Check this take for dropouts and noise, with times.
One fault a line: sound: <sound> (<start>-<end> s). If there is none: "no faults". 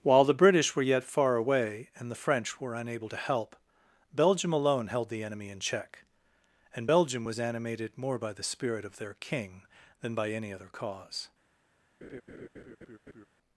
sound: laugh (12.0-13.3 s)